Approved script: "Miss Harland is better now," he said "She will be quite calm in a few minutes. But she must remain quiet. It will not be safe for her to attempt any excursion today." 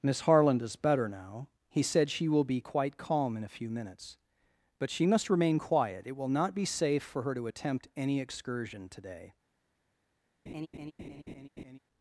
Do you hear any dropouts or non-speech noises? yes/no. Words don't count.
yes